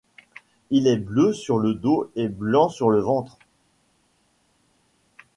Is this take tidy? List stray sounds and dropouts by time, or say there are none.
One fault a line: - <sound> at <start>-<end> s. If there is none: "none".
none